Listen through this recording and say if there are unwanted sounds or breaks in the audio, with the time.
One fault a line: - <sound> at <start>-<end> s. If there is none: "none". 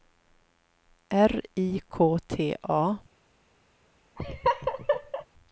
- laugh at 4.2-5.3 s